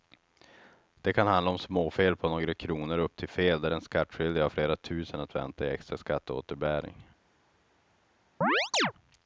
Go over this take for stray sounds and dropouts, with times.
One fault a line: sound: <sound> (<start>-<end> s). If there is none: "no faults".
sound: chirp (8.4-8.9 s)